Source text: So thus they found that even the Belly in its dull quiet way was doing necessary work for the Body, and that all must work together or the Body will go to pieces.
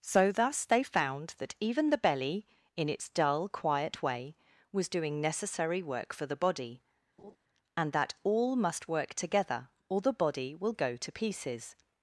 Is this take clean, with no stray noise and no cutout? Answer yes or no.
no